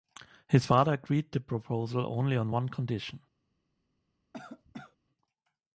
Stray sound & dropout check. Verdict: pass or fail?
fail